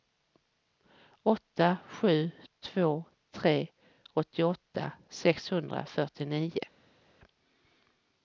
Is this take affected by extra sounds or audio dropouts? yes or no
no